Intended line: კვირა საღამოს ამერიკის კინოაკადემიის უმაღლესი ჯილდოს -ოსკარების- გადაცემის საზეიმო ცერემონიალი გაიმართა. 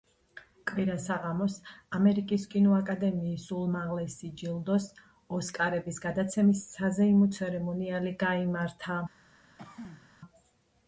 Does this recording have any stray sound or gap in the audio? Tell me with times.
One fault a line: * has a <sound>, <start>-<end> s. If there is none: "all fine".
* has a throat clearing, 9.6-10.1 s